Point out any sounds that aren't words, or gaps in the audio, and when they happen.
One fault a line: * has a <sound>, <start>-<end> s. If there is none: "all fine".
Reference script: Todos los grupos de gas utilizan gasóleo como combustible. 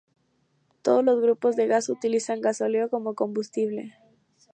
all fine